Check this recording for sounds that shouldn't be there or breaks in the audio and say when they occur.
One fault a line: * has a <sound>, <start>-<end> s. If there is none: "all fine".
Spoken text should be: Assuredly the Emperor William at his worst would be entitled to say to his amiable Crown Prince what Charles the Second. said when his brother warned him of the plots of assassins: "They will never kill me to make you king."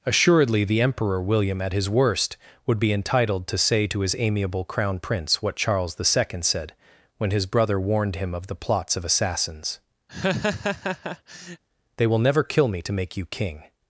* has a laugh, 10.1-11.6 s